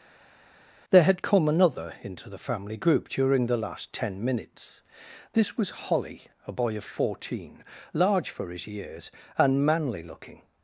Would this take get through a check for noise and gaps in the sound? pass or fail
pass